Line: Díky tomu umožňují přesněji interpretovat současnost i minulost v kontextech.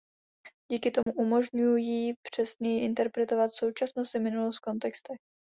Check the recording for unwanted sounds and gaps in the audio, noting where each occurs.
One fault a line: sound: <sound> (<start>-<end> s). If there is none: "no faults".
sound: dropout (1.0-1.1 s)